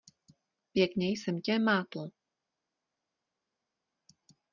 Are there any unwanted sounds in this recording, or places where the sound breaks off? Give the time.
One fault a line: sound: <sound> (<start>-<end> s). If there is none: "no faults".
no faults